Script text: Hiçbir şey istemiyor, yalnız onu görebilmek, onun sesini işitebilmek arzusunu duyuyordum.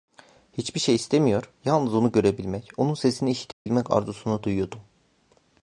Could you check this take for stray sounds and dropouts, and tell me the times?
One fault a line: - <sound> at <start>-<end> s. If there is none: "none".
- dropout at 3.5-3.7 s